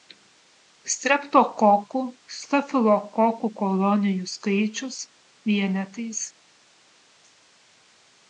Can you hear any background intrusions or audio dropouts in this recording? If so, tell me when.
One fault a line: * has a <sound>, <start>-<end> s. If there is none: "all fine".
all fine